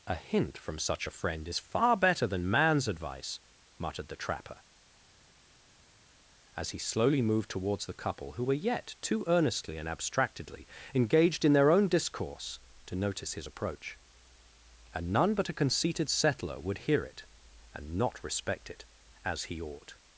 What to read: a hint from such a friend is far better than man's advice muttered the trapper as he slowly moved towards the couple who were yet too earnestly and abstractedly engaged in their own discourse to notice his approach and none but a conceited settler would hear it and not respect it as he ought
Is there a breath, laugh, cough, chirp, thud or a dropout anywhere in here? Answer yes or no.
no